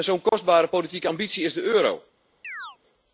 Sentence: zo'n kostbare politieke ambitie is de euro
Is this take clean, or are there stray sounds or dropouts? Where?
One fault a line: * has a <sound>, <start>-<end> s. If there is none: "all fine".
* has a dropout, 0.3-0.3 s
* has a chirp, 2.4-2.8 s